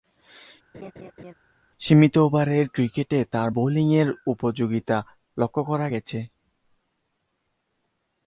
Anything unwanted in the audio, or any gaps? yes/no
yes